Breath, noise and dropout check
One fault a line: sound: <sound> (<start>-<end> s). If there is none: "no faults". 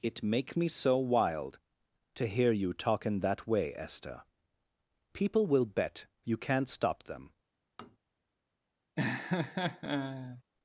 sound: tap (7.8-8.0 s)
sound: laugh (9.0-10.4 s)